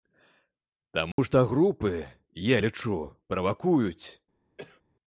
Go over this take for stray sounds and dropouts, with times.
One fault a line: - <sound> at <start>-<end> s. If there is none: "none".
- dropout at 1.1-1.2 s
- cough at 4.6-4.8 s